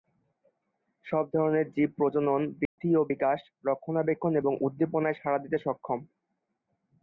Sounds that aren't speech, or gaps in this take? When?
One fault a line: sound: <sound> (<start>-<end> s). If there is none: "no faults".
sound: dropout (2.7-2.8 s)